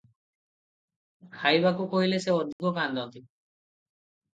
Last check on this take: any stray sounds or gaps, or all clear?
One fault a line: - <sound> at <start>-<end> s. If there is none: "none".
- dropout at 2.5-2.6 s